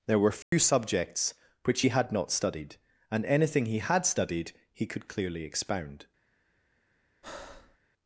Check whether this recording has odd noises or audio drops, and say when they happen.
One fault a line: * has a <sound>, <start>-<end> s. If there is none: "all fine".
* has a dropout, 0.4-0.5 s
* has a breath, 7.2-7.8 s